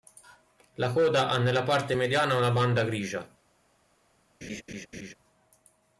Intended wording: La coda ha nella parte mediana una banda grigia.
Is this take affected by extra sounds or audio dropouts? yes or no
yes